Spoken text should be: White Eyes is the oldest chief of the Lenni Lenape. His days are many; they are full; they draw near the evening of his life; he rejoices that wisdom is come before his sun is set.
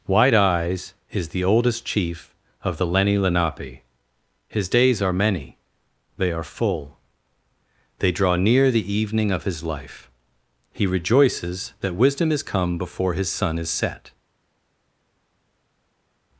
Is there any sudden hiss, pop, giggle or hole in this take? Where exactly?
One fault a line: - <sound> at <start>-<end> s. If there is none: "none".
none